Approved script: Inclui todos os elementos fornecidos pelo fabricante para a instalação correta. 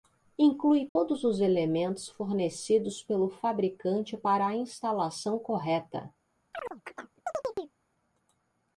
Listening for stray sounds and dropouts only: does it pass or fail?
fail